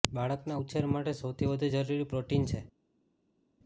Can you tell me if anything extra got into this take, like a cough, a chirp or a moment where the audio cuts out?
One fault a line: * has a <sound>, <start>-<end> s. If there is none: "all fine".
all fine